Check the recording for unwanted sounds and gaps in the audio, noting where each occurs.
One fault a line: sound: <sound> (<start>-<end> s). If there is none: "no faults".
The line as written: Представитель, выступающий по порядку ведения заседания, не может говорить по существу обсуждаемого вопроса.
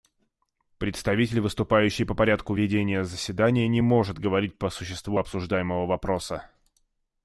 no faults